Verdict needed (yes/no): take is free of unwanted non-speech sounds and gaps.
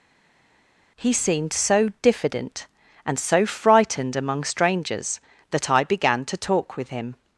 yes